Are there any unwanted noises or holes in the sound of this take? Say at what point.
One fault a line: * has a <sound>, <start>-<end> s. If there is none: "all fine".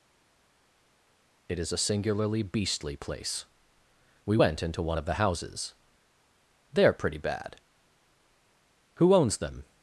all fine